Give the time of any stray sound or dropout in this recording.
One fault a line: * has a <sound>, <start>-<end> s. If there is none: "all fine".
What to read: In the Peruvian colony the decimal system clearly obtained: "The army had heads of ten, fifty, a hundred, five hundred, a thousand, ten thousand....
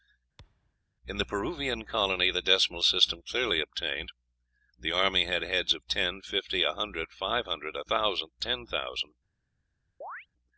* has a thud, 0.4-0.8 s
* has a chirp, 10.0-10.3 s